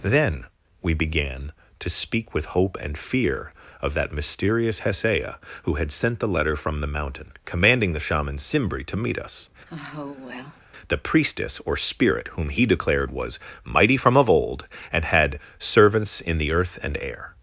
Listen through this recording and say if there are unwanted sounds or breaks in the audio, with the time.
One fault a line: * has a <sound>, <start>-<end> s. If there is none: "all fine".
* has a sigh, 9.7-10.6 s